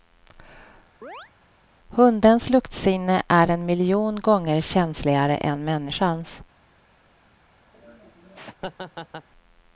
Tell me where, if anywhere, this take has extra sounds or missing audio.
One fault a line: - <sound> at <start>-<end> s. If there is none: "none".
- chirp at 1.0-1.3 s
- laugh at 7.7-9.3 s